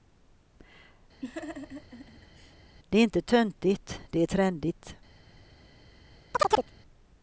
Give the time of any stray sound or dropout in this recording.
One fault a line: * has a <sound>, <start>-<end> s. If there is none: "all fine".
* has a laugh, 1.2-2.5 s
* has a chirp, 6.3-6.7 s